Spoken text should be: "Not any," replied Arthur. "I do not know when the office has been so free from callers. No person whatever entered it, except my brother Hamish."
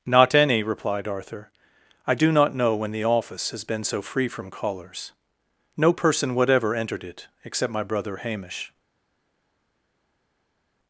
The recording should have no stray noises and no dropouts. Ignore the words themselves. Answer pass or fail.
pass